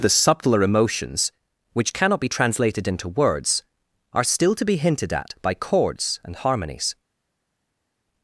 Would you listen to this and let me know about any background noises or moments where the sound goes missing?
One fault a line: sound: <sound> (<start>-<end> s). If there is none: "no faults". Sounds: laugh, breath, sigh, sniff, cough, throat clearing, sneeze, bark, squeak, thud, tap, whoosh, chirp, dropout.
no faults